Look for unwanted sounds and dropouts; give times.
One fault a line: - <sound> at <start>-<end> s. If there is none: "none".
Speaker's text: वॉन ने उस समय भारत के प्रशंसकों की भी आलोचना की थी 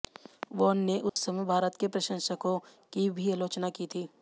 - dropout at 1.1-1.2 s